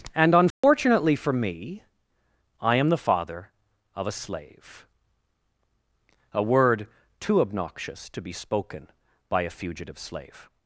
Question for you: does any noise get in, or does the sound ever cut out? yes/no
yes